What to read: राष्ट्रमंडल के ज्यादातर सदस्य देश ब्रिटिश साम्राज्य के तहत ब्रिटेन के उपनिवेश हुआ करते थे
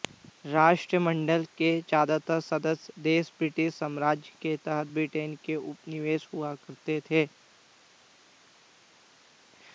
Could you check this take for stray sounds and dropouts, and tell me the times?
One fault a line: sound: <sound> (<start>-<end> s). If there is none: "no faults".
no faults